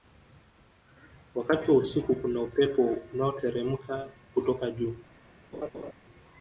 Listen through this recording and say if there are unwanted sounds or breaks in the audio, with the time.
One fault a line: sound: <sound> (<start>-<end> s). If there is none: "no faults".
sound: laugh (5.5-5.9 s)